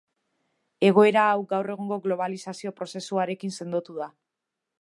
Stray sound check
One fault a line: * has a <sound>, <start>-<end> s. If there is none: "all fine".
all fine